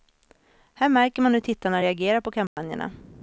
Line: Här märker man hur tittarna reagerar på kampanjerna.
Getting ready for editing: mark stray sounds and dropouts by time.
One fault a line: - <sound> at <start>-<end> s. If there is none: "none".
- dropout at 2.5-2.6 s